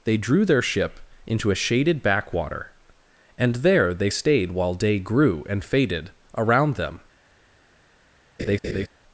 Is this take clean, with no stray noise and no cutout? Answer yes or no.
no